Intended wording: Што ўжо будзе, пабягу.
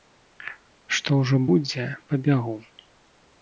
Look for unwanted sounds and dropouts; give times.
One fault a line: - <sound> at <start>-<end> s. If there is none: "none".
none